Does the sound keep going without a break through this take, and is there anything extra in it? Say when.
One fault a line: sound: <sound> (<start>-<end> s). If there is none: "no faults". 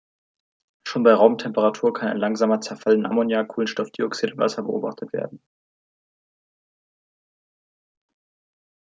no faults